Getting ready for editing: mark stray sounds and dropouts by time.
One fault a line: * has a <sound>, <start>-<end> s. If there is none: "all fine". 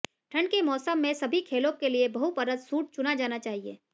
all fine